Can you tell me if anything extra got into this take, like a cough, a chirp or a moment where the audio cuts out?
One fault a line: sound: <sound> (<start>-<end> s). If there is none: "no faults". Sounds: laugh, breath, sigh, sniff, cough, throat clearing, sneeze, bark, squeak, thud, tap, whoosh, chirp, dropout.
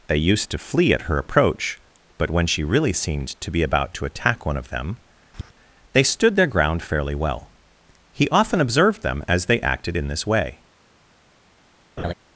sound: tap (5.3-5.5 s)
sound: laugh (12.0-12.1 s)